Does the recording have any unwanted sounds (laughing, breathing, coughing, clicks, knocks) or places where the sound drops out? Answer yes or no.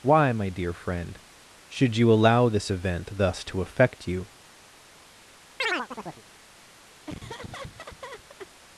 yes